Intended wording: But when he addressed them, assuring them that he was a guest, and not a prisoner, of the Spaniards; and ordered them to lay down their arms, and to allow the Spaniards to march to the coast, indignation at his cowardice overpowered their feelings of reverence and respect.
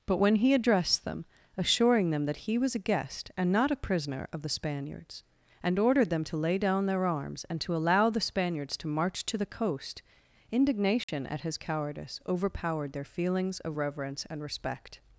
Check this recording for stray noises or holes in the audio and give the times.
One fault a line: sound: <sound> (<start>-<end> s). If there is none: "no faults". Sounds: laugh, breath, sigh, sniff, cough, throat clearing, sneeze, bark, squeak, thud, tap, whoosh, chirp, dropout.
sound: dropout (11.0-11.1 s)